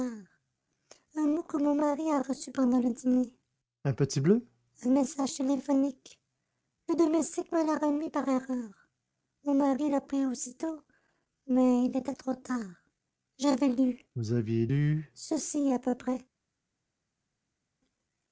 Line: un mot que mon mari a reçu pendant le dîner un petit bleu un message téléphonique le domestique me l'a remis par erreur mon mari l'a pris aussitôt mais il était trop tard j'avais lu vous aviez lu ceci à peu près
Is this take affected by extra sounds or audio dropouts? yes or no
no